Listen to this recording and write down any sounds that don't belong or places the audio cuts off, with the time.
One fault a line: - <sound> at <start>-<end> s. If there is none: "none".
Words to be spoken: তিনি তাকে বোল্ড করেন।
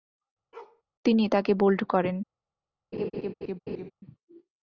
- bark at 0.5-0.8 s
- laugh at 2.9-3.9 s